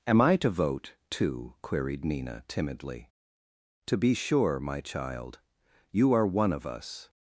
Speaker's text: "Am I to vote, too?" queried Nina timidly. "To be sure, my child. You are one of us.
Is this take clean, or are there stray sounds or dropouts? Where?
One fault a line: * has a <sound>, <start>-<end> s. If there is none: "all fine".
all fine